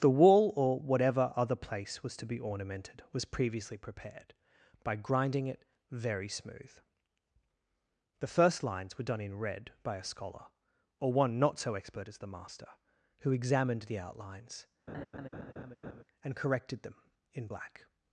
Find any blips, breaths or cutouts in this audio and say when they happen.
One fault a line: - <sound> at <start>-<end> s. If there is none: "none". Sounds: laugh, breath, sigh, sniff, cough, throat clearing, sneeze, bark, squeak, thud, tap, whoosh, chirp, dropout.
- laugh at 14.9-16.0 s